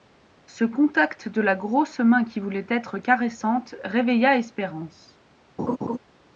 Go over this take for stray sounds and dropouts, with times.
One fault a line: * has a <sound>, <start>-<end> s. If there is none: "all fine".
* has a laugh, 5.6-6.0 s